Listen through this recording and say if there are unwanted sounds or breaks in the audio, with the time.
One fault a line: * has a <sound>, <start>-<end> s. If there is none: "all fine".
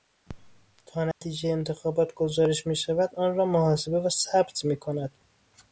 * has a dropout, 1.1-1.2 s